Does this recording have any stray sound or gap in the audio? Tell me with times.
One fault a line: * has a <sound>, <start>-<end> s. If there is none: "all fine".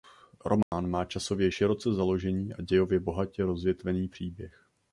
* has a dropout, 0.6-0.7 s